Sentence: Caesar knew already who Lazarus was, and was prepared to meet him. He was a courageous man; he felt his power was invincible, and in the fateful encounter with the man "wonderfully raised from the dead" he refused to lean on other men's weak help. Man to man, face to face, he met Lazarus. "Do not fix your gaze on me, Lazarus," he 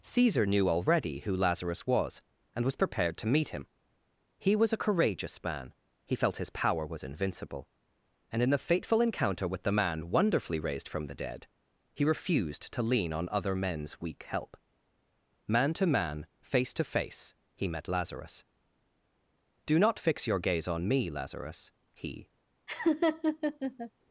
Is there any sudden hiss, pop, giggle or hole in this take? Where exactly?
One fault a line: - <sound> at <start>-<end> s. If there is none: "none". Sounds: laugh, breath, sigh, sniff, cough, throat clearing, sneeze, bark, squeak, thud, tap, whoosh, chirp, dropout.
- laugh at 22.7-23.9 s